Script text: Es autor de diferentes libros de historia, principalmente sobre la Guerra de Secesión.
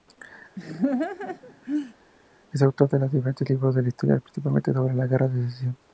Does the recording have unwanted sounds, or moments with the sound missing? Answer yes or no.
yes